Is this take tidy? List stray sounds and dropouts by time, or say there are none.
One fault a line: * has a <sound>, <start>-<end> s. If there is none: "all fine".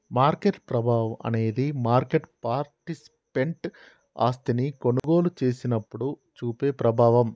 * has a dropout, 5.0-5.0 s